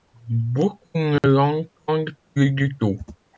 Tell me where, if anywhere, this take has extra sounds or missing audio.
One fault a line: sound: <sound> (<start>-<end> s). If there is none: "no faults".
sound: dropout (1.2-1.2 s)